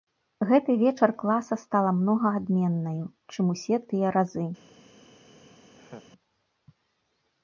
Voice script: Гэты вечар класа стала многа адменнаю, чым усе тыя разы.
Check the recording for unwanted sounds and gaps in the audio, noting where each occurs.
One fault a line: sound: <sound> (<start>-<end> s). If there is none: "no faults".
sound: laugh (5.7-6.1 s)